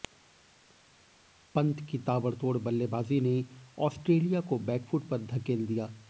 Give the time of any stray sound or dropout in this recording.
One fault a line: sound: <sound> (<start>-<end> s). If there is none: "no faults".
no faults